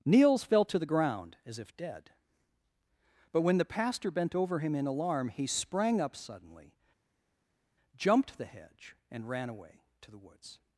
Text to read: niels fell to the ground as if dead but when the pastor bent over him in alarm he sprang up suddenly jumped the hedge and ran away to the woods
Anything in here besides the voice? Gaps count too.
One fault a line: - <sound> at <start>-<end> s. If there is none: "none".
none